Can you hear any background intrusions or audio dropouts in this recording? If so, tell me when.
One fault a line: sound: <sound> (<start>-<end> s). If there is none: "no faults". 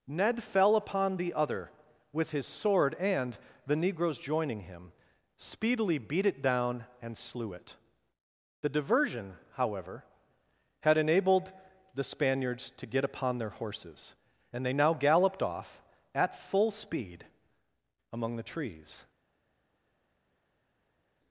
no faults